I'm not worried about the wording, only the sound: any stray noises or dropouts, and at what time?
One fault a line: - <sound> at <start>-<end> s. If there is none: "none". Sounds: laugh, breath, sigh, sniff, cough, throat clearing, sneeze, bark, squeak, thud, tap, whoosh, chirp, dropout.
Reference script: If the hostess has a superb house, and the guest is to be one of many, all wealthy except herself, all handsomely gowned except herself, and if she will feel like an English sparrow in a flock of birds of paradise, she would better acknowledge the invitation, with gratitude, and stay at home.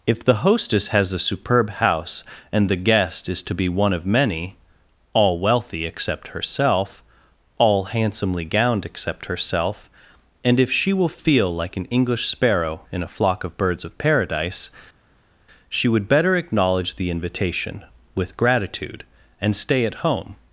none